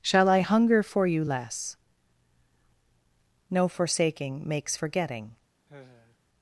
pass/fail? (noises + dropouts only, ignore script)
fail